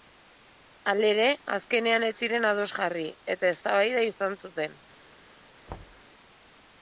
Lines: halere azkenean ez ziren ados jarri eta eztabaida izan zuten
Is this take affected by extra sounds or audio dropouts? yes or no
yes